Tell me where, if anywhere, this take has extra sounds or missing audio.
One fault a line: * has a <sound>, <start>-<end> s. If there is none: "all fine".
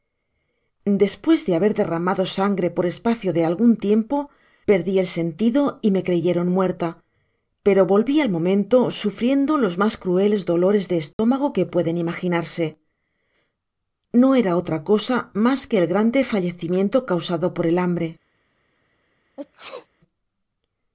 * has a dropout, 11.1-11.2 s
* has a sneeze, 19.4-19.9 s